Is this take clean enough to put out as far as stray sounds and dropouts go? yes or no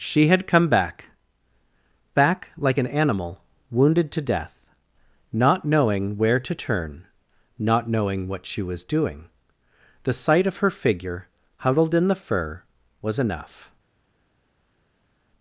yes